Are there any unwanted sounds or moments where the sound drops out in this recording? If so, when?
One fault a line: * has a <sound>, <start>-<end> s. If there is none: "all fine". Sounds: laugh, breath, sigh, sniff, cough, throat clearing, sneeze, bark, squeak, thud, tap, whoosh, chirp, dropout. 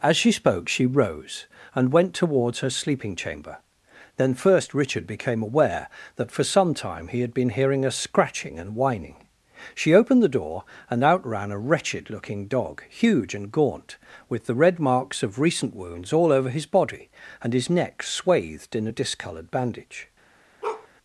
* has a bark, 20.6-20.9 s